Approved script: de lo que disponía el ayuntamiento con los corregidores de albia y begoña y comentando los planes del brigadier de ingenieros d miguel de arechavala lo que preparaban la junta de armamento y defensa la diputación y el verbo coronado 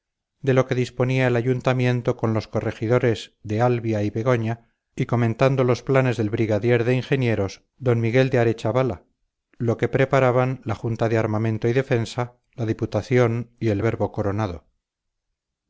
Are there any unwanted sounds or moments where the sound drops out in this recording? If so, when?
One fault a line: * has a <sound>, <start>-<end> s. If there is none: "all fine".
all fine